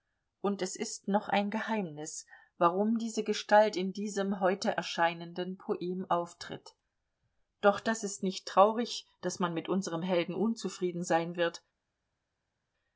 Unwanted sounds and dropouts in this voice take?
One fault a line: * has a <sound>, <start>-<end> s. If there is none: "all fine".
all fine